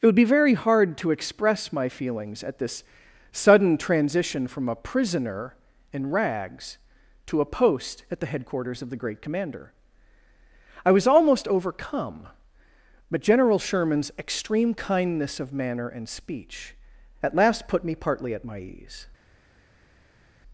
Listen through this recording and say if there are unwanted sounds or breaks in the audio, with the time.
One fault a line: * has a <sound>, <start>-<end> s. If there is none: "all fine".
all fine